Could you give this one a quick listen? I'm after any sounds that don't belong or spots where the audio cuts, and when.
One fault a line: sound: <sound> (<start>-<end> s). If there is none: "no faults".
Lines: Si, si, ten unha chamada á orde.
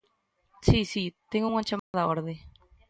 sound: dropout (1.8-1.9 s)